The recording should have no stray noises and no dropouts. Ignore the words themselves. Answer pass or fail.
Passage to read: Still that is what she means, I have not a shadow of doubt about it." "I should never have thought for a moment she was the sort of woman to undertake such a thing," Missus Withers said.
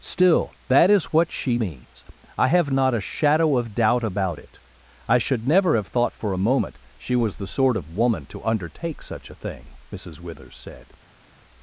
pass